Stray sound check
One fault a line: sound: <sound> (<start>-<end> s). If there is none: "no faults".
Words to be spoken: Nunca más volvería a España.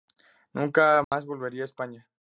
sound: dropout (1.0-1.1 s)